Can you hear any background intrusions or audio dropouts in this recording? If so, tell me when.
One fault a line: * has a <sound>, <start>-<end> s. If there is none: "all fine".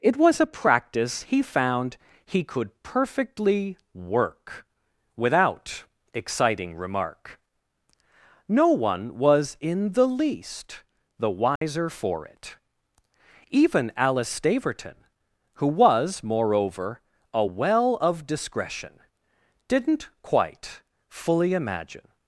* has a dropout, 11.6-11.6 s